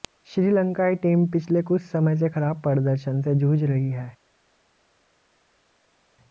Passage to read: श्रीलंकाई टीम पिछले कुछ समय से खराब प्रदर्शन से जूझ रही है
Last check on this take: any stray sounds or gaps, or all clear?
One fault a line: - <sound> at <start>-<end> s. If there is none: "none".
none